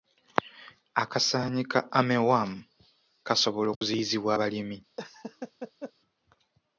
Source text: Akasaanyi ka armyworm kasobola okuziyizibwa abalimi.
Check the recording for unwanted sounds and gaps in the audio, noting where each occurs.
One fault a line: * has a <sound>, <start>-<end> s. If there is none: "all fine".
* has a dropout, 3.7-3.8 s
* has a laugh, 5.0-5.9 s